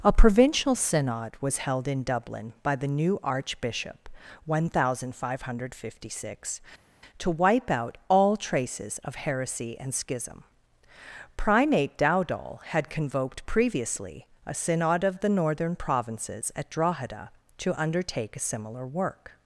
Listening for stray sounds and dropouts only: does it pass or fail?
pass